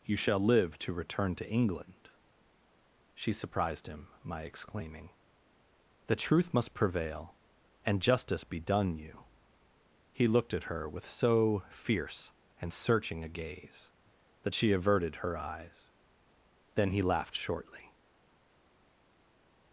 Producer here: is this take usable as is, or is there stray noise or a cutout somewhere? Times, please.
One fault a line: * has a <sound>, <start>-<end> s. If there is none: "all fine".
all fine